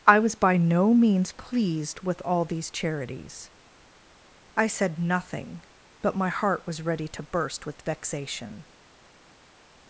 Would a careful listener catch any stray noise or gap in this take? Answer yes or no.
no